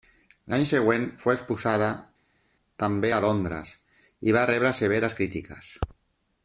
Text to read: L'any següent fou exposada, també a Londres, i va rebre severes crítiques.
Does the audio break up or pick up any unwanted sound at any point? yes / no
no